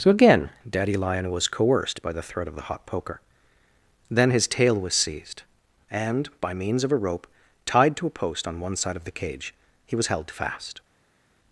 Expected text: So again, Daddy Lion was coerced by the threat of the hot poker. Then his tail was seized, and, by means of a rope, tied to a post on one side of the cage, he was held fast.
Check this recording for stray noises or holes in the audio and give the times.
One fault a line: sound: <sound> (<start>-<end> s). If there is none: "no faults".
no faults